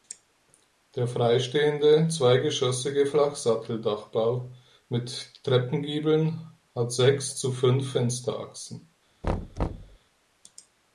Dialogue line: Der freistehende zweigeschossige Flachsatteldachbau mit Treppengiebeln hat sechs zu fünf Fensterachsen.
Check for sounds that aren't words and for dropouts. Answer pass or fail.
fail